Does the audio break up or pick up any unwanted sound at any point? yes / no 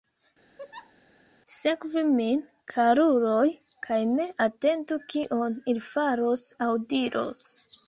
yes